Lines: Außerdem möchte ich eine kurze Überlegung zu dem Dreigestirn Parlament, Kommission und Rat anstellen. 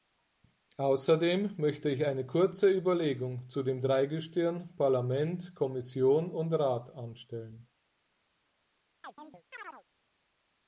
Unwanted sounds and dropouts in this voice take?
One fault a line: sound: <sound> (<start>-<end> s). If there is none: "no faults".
sound: chirp (9.0-9.8 s)